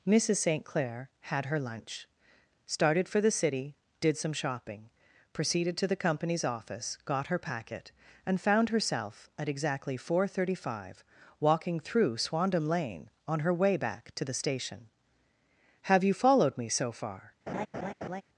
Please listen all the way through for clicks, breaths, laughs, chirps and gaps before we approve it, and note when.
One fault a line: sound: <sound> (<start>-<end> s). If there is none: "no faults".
sound: laugh (17.5-18.2 s)